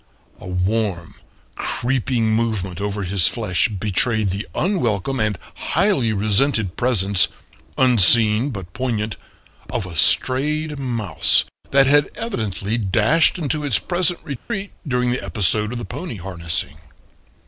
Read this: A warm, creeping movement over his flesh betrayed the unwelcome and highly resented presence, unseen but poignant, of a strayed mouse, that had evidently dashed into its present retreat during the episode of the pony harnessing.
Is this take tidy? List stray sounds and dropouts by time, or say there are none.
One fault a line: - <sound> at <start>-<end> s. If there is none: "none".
- dropout at 14.4-14.5 s